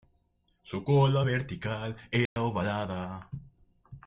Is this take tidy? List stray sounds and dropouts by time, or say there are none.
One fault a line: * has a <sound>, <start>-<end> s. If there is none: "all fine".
* has a dropout, 2.3-2.4 s